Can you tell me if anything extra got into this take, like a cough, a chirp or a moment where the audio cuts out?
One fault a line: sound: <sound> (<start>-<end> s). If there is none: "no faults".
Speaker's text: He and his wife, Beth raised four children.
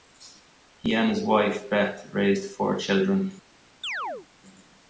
sound: chirp (3.8-4.3 s)